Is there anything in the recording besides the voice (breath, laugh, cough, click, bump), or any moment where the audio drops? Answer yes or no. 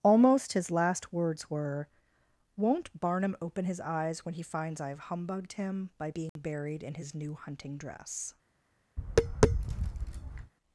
yes